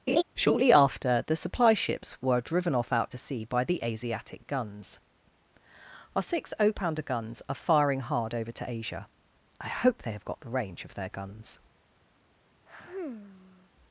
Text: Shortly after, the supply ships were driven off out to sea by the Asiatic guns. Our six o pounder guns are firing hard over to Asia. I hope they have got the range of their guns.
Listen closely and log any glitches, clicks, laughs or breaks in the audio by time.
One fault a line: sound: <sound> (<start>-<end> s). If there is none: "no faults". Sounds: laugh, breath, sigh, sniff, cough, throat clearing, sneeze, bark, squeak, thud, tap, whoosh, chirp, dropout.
sound: laugh (0.1-0.2 s)
sound: sigh (12.7-13.7 s)